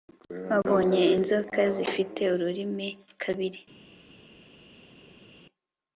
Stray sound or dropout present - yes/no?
no